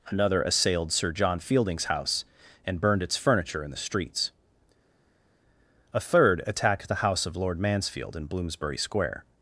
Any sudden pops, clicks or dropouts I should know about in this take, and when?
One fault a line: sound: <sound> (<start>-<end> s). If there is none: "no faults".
no faults